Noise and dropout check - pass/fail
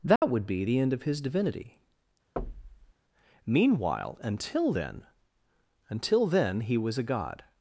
fail